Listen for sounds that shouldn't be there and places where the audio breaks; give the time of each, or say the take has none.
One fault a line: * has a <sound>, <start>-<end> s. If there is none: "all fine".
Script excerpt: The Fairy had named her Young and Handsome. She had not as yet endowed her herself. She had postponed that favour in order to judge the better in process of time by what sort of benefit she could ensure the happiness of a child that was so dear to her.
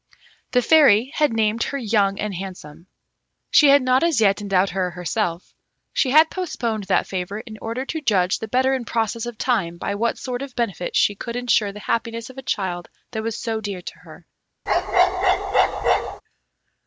* has a bark, 14.7-16.2 s